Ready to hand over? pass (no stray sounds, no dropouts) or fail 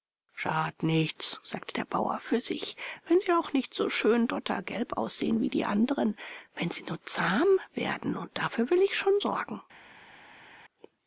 pass